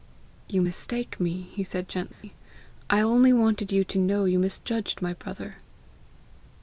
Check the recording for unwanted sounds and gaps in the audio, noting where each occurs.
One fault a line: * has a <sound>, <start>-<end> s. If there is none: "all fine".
* has a dropout, 2.1-2.2 s